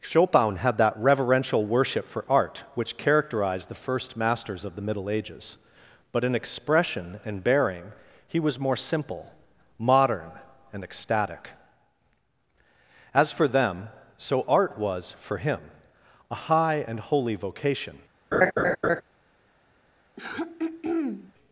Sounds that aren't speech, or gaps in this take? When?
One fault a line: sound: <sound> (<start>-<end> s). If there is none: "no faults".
sound: laugh (18.3-19.0 s)
sound: throat clearing (20.2-21.3 s)